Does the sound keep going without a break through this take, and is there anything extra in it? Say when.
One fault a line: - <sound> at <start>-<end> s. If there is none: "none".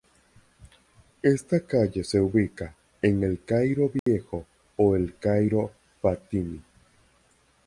- dropout at 4.0-4.1 s